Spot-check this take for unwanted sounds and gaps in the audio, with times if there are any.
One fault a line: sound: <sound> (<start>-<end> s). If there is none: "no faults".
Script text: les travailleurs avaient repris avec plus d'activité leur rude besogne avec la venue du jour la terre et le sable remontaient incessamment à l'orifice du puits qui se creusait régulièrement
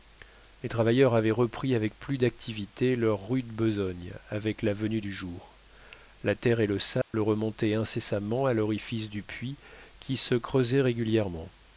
sound: dropout (7.0-7.1 s)